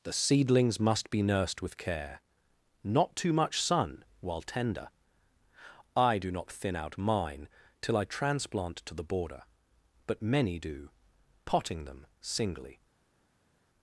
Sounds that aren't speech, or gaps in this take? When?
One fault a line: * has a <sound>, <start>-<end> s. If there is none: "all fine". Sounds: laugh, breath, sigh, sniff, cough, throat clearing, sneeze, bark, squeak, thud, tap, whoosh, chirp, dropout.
all fine